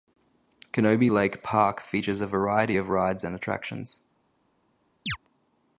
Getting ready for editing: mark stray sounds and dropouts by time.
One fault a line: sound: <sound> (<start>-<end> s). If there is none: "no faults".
sound: chirp (5.1-5.2 s)